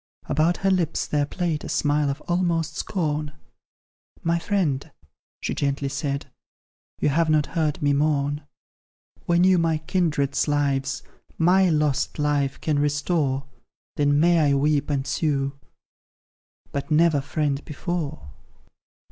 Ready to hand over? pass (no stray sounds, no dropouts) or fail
pass